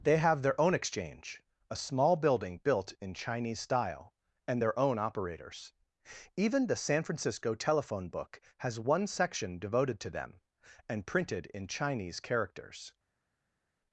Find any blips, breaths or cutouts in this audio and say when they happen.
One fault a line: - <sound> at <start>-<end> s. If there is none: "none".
none